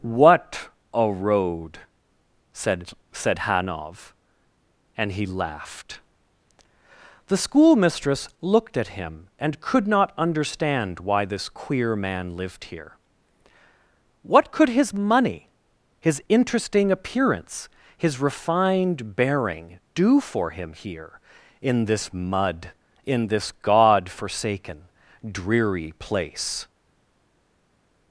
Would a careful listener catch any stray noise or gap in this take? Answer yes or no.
no